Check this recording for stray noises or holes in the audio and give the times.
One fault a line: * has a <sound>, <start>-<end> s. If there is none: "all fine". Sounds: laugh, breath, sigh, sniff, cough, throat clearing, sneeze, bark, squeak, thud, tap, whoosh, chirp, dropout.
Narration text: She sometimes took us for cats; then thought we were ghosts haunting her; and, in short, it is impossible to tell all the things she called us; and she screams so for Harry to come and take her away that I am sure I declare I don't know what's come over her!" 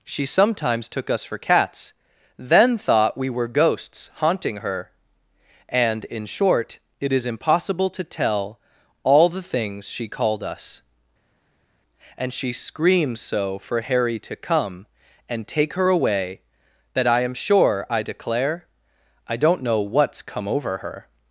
all fine